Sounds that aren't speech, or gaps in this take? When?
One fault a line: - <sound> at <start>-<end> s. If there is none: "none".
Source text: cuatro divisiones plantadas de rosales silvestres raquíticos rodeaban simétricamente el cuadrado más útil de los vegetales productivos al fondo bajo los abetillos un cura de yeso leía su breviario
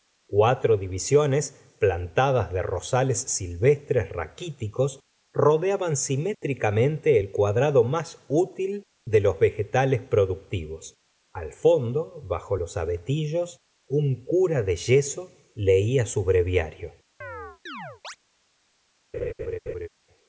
- chirp at 17.2-18.2 s
- laugh at 19.1-19.9 s